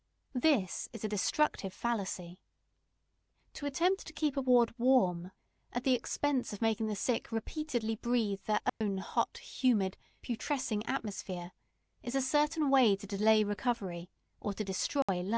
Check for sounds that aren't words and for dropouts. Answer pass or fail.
fail